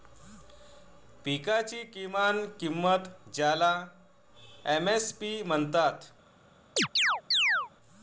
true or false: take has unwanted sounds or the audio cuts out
true